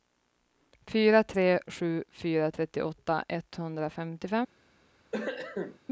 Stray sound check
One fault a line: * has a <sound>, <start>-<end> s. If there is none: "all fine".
* has a cough, 5.1-5.8 s